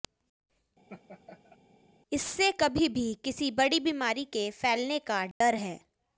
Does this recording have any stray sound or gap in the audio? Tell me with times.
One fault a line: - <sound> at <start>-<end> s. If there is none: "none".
- laugh at 0.9-1.6 s
- dropout at 5.3-5.4 s